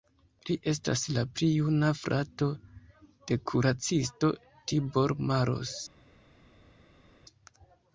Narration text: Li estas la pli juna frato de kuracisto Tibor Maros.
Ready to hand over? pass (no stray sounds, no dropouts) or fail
pass